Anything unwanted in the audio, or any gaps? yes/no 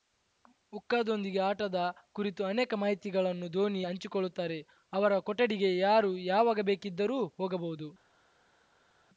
no